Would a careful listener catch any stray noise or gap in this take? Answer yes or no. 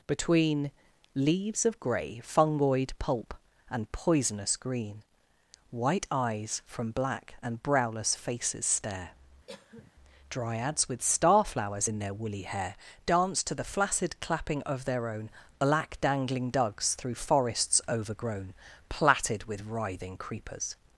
yes